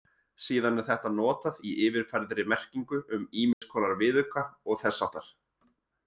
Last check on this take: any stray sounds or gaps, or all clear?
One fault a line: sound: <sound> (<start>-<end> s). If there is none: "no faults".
sound: dropout (3.5-3.6 s)